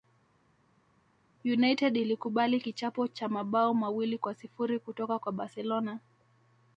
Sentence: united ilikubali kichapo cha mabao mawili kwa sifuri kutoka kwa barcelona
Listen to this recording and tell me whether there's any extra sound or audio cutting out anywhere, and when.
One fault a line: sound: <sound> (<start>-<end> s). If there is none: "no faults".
no faults